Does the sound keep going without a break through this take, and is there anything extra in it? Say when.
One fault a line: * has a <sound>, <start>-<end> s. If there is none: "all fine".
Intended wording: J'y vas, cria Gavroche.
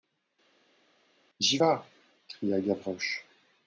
all fine